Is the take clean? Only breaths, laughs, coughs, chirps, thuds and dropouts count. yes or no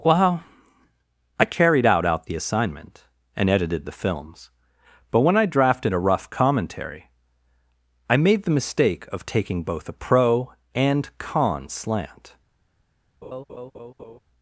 no